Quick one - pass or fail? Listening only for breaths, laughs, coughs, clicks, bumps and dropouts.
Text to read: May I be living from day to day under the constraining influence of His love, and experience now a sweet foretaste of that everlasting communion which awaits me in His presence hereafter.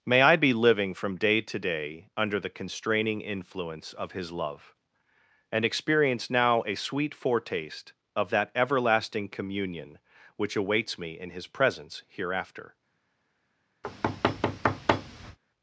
fail